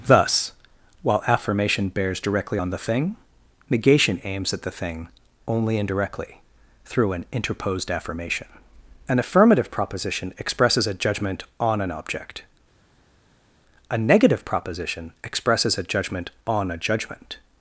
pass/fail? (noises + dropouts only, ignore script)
pass